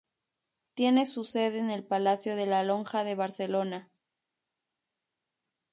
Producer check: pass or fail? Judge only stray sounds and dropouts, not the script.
pass